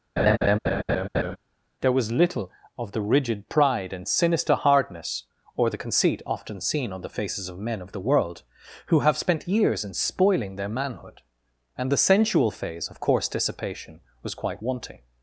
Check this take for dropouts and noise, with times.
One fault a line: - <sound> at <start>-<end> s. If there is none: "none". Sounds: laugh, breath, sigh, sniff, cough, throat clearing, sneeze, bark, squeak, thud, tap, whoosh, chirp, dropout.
- laugh at 0.2-1.4 s